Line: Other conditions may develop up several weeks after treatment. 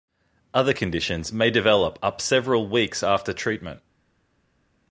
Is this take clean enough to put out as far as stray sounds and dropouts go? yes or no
yes